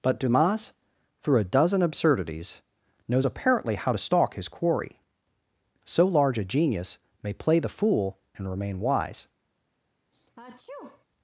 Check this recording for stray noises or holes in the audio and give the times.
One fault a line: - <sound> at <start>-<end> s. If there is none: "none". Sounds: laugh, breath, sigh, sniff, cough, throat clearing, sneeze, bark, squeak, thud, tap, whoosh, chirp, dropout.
- sneeze at 10.1-11.1 s